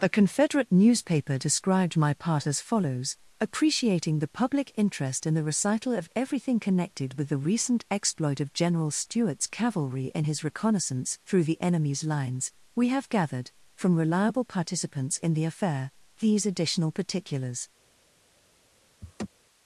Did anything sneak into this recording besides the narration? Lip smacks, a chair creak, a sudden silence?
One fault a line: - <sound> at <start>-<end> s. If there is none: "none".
- laugh at 19.0-19.3 s